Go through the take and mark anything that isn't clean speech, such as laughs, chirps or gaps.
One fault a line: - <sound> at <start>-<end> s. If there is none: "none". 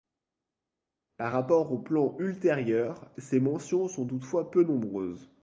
none